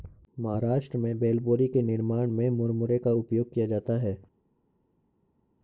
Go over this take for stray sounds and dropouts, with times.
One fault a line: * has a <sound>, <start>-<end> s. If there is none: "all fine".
all fine